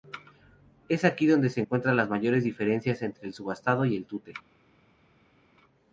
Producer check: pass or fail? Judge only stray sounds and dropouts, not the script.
pass